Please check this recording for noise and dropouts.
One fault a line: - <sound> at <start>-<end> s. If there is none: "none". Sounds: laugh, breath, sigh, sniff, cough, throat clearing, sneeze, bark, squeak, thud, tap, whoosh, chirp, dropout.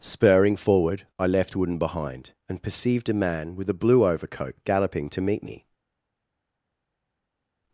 none